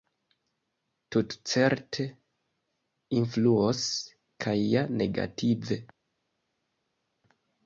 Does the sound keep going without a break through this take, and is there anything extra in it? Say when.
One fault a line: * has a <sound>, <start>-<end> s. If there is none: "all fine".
all fine